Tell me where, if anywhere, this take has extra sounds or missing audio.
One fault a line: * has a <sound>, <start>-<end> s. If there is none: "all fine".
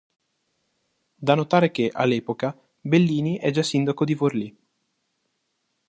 all fine